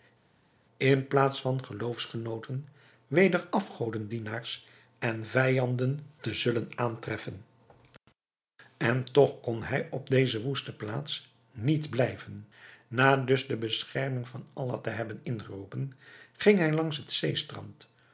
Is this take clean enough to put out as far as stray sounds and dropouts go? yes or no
yes